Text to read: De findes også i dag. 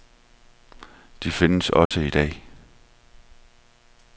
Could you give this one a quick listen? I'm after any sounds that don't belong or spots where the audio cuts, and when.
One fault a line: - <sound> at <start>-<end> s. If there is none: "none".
- dropout at 1.9-1.9 s